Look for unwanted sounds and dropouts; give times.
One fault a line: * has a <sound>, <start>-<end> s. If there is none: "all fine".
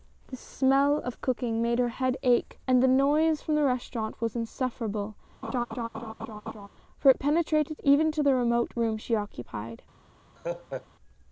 * has a laugh, 5.4-6.7 s
* has a laugh, 10.4-10.9 s